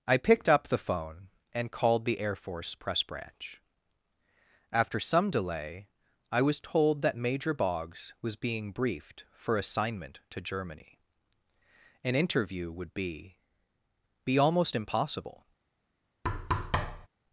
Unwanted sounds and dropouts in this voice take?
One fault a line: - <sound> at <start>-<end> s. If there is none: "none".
- thud at 16.2-17.1 s